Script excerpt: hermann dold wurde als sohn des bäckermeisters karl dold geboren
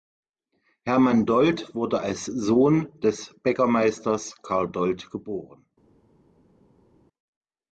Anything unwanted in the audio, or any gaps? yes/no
no